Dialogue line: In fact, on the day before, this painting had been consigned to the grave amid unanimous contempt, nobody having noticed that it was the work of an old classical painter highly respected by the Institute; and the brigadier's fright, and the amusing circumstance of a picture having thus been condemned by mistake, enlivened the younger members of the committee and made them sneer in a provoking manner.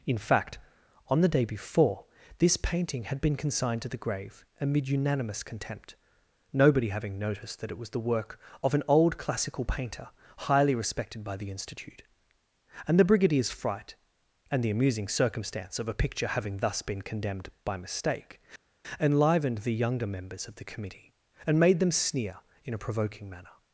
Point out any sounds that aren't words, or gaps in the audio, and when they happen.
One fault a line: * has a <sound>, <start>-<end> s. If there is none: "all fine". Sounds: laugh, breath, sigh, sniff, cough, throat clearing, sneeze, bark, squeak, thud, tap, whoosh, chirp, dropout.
all fine